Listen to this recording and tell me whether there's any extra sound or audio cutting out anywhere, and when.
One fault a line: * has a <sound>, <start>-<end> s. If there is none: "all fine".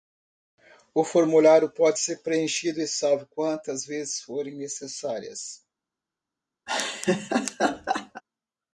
* has a laugh, 6.7-8.2 s